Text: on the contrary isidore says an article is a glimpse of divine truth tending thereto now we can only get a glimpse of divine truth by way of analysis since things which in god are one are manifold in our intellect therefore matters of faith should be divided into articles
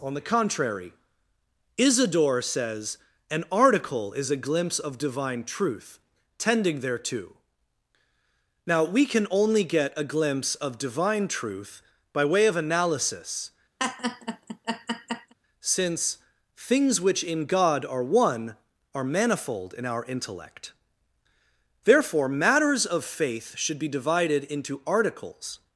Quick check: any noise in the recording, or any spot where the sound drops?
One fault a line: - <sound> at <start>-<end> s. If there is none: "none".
- laugh at 13.8-15.3 s